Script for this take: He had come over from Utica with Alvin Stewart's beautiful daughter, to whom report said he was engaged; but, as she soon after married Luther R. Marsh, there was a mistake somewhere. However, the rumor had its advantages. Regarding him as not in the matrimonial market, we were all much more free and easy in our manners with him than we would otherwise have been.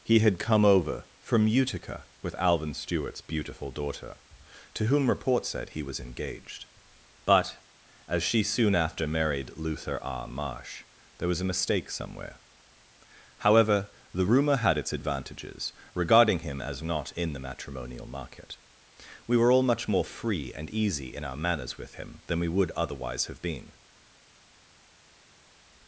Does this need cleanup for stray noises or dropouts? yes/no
no